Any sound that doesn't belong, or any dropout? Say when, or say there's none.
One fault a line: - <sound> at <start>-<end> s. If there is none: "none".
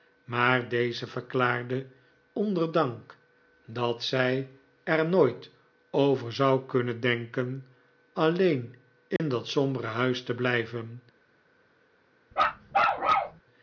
- dropout at 9.2-9.2 s
- bark at 12.3-13.4 s